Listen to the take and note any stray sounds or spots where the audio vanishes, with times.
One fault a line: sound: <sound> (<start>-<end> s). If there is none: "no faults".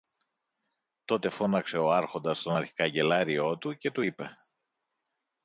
no faults